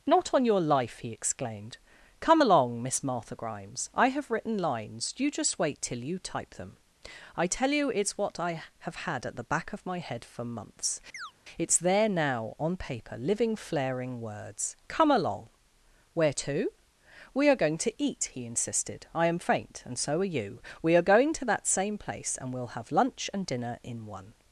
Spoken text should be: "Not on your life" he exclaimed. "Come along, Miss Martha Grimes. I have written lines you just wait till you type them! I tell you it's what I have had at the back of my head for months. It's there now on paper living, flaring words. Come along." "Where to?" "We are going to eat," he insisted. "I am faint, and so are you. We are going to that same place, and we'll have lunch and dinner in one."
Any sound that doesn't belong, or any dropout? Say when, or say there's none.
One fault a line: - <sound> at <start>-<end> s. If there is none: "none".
- chirp at 11.1-11.3 s